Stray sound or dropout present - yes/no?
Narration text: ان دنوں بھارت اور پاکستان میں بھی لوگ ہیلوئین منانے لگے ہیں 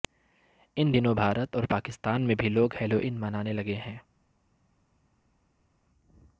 no